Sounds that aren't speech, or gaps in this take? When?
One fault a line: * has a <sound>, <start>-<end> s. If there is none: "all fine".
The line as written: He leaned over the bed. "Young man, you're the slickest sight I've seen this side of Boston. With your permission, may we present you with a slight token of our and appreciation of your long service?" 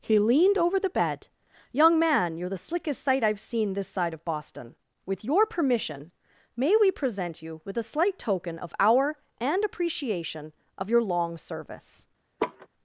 * has a laugh, 12.4-12.7 s